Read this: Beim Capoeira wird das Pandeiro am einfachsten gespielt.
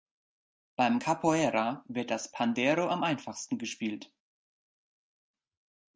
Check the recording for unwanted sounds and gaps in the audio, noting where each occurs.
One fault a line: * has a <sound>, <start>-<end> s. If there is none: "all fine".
all fine